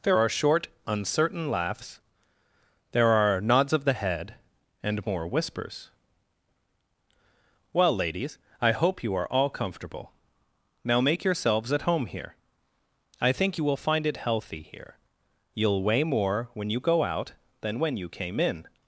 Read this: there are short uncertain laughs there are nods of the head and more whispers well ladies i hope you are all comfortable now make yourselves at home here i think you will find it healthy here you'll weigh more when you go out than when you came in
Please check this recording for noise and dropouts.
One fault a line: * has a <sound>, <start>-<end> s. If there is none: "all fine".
all fine